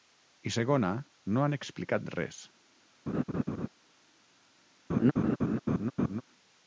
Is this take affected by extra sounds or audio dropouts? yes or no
yes